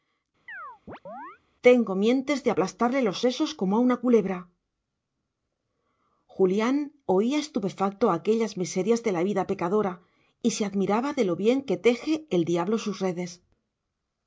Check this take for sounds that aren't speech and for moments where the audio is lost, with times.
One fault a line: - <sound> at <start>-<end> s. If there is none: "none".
- chirp at 0.5-1.4 s